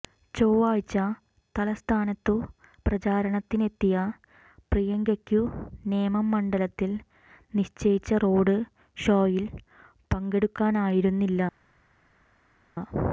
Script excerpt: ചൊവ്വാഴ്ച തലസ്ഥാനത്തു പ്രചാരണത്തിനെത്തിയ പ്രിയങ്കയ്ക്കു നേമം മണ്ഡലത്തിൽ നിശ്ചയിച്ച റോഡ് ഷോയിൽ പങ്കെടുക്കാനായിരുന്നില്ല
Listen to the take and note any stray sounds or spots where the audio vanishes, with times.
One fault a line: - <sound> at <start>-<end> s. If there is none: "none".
none